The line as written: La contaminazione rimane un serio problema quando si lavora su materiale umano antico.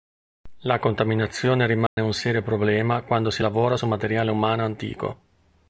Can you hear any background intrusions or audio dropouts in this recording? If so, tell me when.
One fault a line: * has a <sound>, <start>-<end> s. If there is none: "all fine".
* has a dropout, 1.9-2.0 s